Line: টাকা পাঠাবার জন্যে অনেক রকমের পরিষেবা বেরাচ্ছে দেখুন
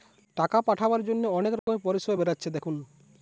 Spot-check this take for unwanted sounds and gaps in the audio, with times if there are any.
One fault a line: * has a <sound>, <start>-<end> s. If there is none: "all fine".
* has a dropout, 1.6-1.7 s